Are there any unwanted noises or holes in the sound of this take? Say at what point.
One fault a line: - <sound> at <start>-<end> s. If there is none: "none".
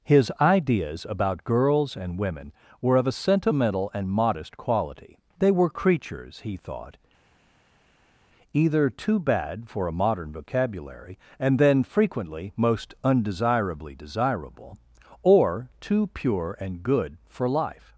none